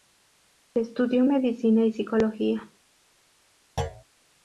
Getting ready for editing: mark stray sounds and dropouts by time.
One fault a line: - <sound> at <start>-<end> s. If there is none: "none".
- thud at 3.8-4.0 s